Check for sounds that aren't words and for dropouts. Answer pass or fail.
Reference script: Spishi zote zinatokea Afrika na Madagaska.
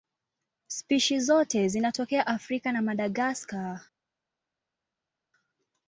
pass